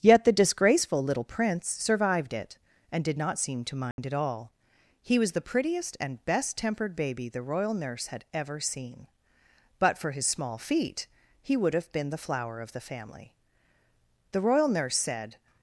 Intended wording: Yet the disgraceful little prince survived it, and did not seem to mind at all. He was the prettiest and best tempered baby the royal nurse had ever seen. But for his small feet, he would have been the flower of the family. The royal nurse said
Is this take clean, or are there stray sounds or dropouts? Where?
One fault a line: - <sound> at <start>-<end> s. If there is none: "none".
- dropout at 3.9-4.0 s